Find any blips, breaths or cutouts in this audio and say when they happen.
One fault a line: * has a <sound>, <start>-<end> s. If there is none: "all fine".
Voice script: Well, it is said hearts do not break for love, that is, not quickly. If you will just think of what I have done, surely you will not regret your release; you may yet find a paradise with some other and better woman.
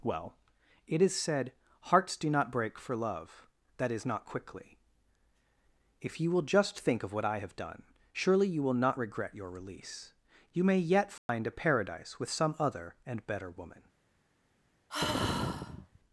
* has a dropout, 11.2-11.3 s
* has a sigh, 14.9-16.0 s